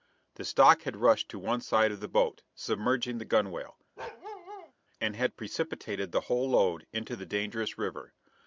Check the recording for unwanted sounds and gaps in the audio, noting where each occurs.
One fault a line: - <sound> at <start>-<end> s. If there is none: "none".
- bark at 4.0-4.7 s